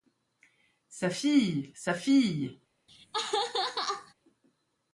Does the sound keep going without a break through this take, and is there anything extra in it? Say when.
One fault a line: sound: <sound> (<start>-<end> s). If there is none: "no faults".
sound: laugh (2.9-4.1 s)